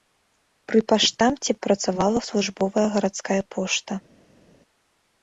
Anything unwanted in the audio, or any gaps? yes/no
no